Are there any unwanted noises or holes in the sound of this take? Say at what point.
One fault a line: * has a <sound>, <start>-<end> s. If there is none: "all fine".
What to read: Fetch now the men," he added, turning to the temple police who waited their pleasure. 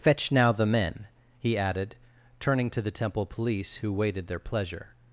all fine